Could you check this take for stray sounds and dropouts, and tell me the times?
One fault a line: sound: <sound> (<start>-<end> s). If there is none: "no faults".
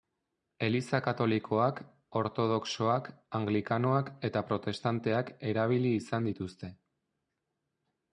no faults